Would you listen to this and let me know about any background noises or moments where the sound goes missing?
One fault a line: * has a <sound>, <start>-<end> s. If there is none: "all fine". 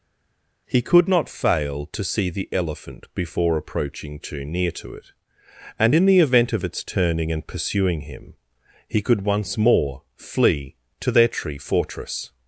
all fine